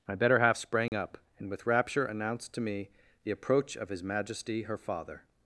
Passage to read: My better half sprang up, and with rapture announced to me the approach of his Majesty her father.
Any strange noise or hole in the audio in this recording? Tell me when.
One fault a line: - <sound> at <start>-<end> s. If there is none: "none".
- dropout at 0.9-0.9 s